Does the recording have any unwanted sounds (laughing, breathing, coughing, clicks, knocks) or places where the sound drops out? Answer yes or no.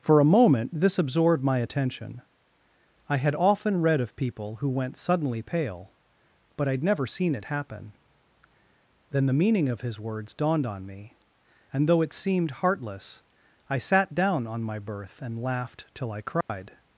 yes